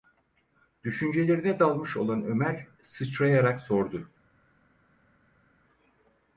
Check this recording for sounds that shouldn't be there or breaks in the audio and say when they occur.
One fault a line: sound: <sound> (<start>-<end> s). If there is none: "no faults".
no faults